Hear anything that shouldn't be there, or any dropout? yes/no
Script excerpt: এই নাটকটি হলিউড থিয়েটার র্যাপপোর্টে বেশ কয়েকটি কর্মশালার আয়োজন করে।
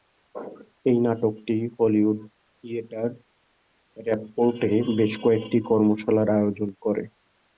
no